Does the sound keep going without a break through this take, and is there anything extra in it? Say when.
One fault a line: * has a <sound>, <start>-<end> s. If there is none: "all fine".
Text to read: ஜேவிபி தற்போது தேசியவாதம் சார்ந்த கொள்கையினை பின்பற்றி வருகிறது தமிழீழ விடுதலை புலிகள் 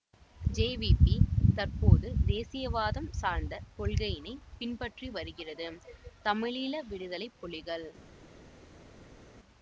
all fine